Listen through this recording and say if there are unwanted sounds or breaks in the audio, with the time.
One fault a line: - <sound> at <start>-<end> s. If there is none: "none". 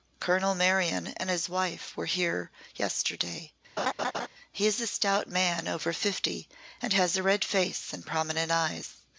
- laugh at 3.8-4.3 s